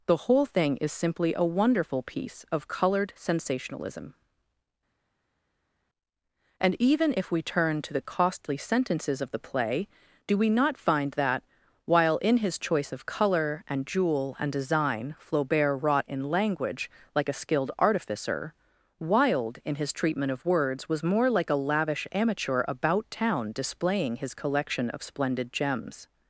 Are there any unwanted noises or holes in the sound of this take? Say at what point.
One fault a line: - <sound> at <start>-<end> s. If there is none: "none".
none